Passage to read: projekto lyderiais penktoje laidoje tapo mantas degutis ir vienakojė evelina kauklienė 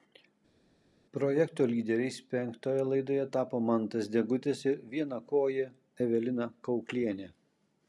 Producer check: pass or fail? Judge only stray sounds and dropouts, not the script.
pass